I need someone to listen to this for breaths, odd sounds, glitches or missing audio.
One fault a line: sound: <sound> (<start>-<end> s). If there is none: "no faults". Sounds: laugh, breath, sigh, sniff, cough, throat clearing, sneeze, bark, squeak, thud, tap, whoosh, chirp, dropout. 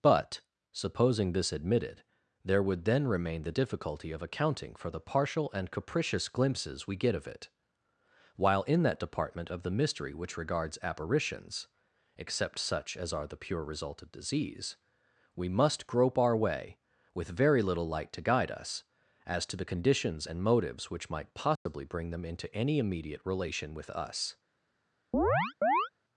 sound: dropout (21.6-21.7 s)
sound: chirp (25.1-25.9 s)